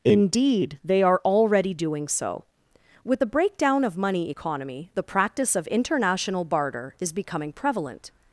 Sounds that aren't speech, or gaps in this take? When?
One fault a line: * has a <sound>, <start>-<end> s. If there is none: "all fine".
all fine